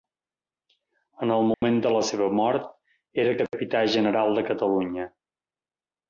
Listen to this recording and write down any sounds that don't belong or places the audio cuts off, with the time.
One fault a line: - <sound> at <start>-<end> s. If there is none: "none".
- dropout at 1.5-1.6 s